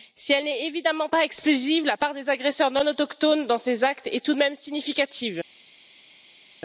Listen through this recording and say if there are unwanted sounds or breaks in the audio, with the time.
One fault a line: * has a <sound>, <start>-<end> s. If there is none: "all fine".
all fine